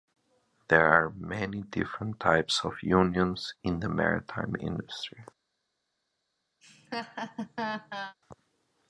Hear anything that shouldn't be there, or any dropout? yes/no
yes